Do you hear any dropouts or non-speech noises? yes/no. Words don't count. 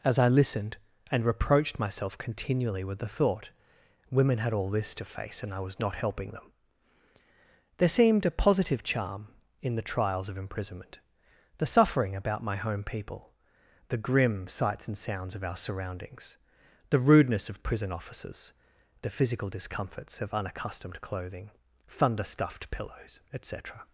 no